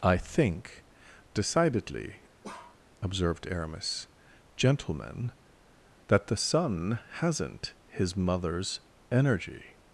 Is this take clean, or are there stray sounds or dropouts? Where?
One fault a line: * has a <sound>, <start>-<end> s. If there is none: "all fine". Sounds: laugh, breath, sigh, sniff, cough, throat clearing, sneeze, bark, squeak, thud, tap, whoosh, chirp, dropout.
* has a bark, 2.4-2.8 s